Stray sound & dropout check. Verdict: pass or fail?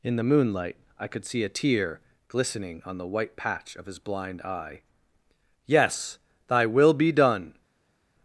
pass